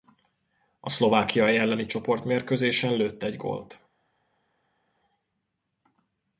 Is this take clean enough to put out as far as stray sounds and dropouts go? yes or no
yes